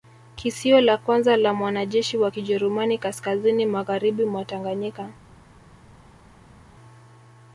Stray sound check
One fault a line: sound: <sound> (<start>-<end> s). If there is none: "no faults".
no faults